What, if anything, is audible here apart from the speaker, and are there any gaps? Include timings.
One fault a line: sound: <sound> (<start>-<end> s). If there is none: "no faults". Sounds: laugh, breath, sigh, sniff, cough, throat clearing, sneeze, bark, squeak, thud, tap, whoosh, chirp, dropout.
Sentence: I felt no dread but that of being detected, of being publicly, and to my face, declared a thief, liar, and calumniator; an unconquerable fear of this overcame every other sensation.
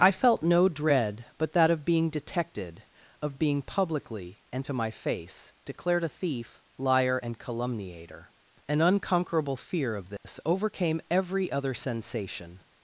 sound: dropout (10.2-10.2 s)